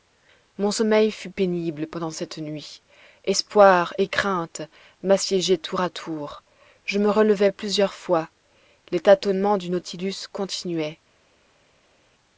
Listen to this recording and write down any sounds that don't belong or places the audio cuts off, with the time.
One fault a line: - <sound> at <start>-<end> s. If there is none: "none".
none